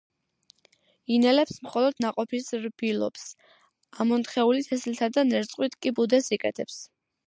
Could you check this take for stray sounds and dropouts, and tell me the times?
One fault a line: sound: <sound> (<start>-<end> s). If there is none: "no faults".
no faults